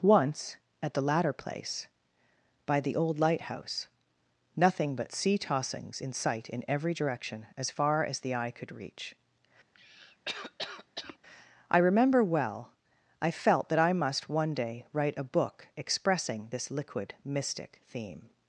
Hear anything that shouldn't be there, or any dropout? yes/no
yes